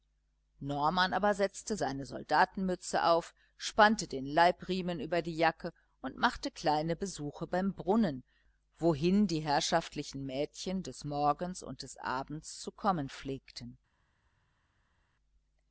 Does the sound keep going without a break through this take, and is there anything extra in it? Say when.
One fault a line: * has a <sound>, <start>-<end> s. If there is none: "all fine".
all fine